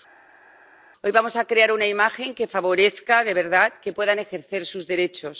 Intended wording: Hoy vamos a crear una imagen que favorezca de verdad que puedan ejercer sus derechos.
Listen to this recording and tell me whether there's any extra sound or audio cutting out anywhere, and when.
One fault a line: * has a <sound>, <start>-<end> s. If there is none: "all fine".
all fine